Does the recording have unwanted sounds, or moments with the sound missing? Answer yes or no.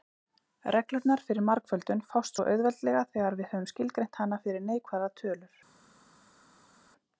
no